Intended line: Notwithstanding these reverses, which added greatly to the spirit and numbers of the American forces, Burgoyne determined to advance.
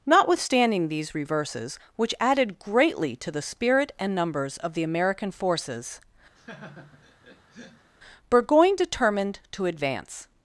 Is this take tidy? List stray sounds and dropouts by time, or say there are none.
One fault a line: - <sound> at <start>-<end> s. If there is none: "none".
- laugh at 6.3-7.9 s